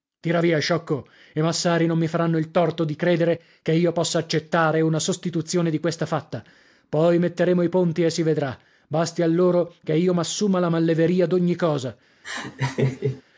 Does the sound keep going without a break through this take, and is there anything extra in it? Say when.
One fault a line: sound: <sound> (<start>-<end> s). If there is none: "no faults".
sound: laugh (12.2-13.2 s)